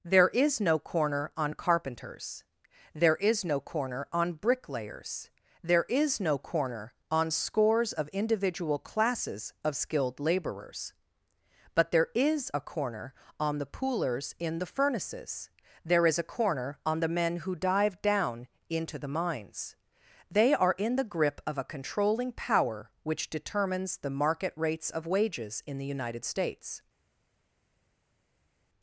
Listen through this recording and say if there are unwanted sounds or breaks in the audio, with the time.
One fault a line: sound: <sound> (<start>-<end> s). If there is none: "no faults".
no faults